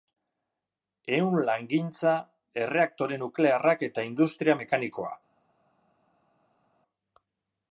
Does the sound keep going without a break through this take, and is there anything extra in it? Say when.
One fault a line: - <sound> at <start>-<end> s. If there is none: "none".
none